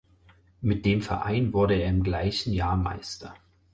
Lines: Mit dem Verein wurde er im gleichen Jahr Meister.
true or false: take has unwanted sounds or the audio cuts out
false